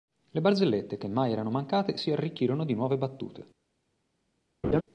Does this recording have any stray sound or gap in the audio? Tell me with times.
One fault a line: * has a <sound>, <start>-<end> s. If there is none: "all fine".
* has a laugh, 4.6-4.8 s